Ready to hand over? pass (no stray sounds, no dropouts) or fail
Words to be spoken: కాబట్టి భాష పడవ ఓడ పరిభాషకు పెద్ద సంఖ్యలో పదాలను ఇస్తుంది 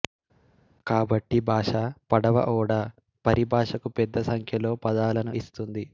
pass